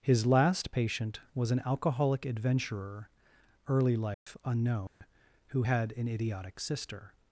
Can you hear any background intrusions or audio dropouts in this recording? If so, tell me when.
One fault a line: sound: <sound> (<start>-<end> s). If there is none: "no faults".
sound: dropout (4.1-4.3 s)
sound: dropout (4.9-5.0 s)